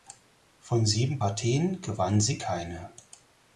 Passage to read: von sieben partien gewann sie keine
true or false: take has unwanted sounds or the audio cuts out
false